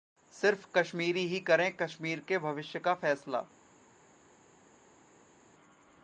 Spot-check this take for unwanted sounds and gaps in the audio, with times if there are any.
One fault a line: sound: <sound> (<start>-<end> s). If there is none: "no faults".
no faults